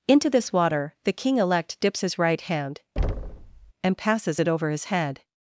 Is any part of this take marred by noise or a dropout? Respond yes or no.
yes